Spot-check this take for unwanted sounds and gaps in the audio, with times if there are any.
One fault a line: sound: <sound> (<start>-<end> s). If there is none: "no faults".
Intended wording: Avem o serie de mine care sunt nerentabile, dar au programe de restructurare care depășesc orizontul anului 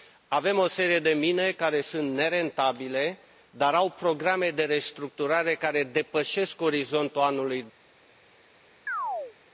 sound: chirp (8.9-9.4 s)